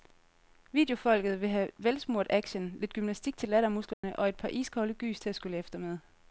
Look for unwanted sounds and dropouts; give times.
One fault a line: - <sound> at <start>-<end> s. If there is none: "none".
- dropout at 3.9-4.0 s